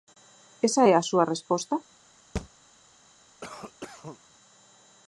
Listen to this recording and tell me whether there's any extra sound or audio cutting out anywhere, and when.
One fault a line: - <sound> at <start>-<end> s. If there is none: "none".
- thud at 2.4-2.5 s
- cough at 3.4-4.2 s